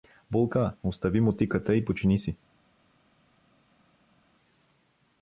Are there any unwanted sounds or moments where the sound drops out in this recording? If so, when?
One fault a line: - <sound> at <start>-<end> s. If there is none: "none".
none